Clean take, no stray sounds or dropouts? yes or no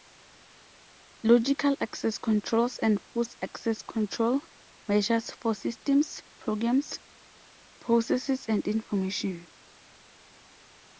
yes